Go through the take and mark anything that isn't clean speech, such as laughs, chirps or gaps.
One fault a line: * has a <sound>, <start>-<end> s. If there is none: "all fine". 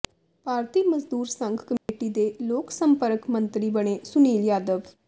* has a dropout, 1.8-1.9 s